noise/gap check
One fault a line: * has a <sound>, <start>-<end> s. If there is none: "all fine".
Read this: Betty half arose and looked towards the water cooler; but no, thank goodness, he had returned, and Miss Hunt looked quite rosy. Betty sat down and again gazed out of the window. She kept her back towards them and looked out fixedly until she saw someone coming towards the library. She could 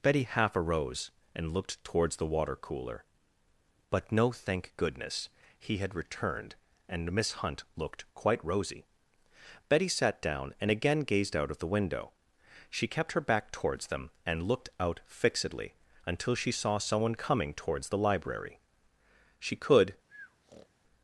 * has a breath, 20.1-20.7 s